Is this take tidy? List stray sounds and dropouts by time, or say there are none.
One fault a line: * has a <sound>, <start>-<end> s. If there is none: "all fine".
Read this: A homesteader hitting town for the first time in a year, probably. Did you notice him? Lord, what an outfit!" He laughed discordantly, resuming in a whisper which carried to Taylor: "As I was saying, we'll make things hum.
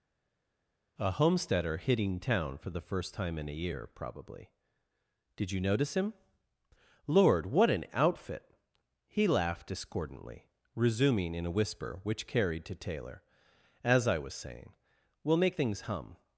all fine